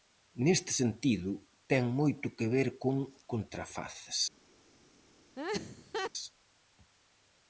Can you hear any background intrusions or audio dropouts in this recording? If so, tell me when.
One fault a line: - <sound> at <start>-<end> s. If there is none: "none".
- laugh at 5.4-6.1 s